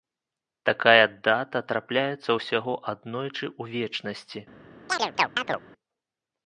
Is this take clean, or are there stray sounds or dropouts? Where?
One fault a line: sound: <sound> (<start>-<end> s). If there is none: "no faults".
sound: chirp (4.9-5.6 s)